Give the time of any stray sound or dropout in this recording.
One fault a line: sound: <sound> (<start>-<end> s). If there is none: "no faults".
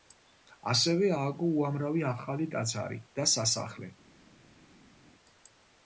no faults